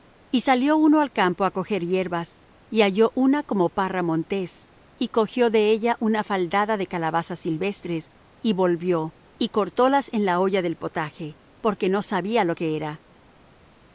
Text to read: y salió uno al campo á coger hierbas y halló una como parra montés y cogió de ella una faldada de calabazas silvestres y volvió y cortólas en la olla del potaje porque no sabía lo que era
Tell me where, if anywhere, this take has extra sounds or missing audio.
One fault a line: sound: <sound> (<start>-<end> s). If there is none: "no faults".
no faults